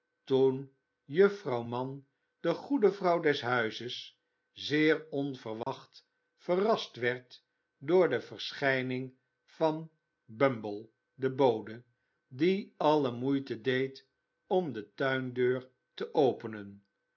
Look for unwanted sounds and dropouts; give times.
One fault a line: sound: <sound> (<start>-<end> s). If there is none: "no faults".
sound: dropout (5.6-5.7 s)